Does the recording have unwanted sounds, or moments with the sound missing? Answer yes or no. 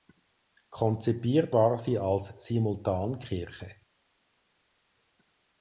no